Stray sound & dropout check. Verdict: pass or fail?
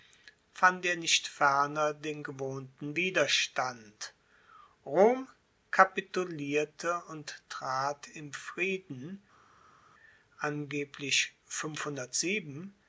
pass